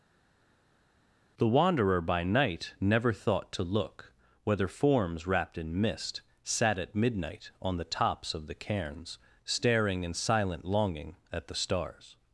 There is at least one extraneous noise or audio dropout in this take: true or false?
false